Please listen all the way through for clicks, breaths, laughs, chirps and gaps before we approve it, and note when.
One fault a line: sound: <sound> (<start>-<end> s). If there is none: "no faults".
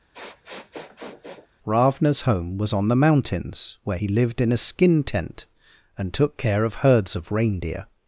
sound: sniff (0.1-1.5 s)